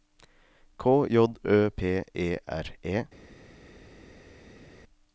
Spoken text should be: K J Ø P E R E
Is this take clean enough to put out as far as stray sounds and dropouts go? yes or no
yes